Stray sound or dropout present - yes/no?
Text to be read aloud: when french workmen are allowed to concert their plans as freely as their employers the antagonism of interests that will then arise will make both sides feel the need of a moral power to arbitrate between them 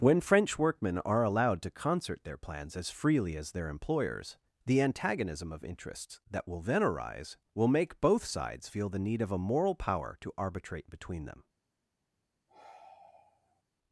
yes